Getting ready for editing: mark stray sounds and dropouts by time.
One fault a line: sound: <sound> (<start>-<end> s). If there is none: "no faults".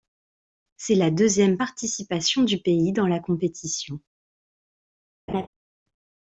sound: laugh (5.3-5.5 s)